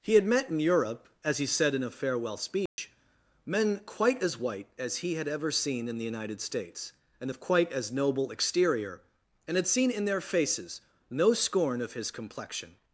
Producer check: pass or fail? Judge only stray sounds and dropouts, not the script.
fail